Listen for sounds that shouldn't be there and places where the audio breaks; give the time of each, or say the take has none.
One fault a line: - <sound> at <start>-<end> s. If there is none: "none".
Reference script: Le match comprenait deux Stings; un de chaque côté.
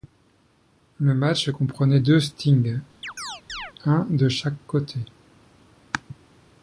- chirp at 3.0-3.7 s